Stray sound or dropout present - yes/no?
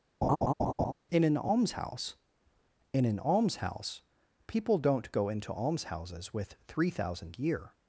yes